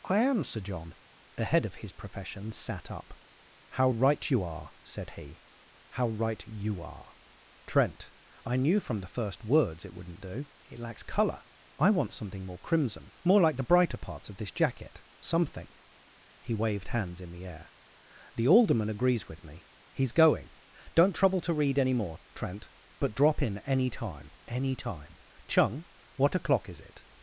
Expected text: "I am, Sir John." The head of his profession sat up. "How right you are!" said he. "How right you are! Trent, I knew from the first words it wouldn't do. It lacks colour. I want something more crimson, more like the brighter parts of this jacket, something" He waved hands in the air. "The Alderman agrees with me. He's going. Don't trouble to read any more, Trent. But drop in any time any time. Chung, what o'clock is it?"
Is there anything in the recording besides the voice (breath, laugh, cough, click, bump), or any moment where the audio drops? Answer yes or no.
no